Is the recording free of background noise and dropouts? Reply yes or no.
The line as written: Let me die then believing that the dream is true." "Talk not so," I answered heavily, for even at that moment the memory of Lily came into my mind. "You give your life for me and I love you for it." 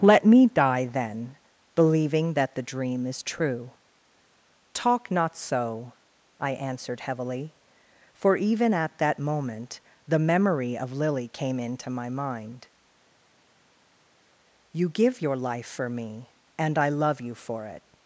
yes